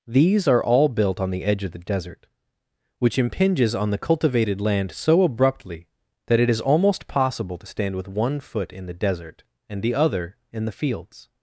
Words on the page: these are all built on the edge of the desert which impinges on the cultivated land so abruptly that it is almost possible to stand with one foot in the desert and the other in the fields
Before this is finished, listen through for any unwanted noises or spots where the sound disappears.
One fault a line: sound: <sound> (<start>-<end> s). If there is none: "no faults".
no faults